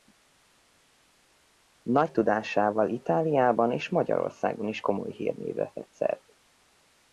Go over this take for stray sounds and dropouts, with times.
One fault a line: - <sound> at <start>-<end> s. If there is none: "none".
none